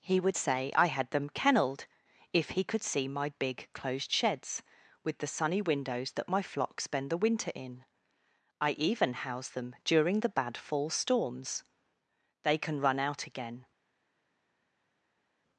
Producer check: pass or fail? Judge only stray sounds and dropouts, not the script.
pass